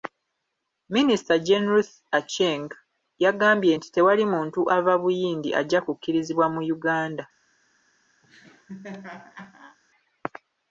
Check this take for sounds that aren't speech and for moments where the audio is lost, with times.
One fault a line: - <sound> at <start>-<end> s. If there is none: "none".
- laugh at 8.2-9.8 s